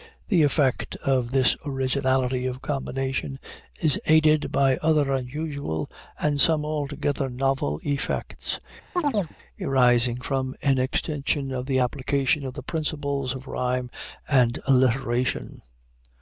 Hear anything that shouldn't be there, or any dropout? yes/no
yes